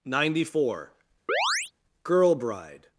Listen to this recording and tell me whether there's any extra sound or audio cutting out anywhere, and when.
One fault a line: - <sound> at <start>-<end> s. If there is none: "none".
- chirp at 1.3-1.7 s